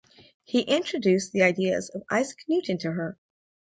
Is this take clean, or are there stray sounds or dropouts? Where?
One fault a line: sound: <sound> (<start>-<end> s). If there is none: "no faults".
no faults